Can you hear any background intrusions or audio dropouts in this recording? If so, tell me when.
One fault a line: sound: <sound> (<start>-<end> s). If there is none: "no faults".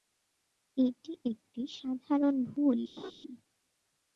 sound: laugh (3.0-3.1 s)